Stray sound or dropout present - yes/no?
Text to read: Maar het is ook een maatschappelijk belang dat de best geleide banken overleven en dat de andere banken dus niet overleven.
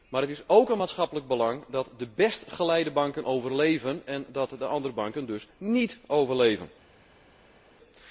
no